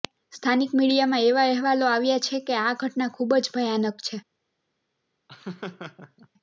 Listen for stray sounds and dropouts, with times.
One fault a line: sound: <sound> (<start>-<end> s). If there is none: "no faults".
sound: laugh (5.3-6.3 s)